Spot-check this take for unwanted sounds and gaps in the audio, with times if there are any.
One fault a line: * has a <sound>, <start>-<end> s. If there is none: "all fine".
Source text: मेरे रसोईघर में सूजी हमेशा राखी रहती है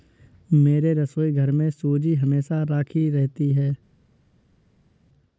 all fine